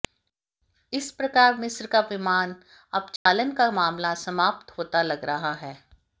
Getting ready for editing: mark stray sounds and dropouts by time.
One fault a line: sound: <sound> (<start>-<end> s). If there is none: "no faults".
sound: dropout (3.2-3.3 s)